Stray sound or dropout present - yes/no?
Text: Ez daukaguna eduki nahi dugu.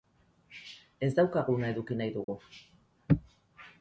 yes